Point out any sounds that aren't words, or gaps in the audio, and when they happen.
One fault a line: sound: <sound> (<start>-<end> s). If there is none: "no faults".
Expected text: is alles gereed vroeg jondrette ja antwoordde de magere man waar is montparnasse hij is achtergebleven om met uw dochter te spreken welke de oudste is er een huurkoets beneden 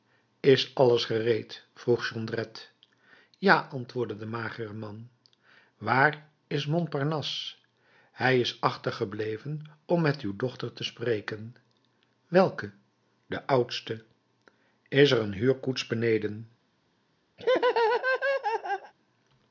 sound: laugh (17.4-18.9 s)